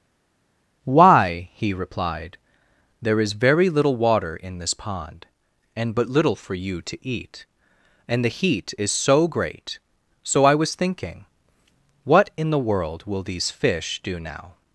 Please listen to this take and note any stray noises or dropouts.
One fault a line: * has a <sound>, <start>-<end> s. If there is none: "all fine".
all fine